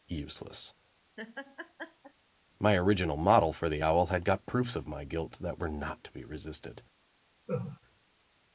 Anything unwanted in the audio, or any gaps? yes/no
yes